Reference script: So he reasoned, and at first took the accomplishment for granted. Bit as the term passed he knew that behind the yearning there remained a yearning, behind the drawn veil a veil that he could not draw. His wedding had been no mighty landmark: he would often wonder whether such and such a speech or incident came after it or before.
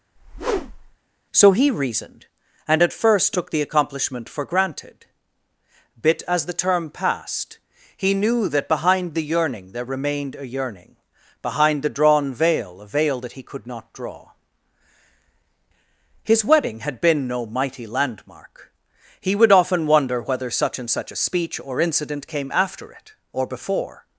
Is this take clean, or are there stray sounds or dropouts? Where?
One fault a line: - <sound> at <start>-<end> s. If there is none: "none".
- whoosh at 0.2-1.0 s